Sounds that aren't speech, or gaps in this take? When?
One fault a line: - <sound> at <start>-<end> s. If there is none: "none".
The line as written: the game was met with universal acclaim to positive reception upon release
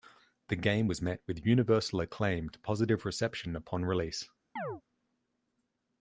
- chirp at 4.6-4.8 s